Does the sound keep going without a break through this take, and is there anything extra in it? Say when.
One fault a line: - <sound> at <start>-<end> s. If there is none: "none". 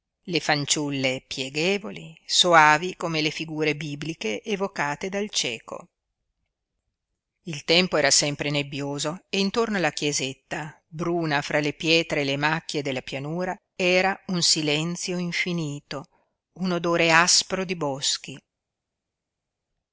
none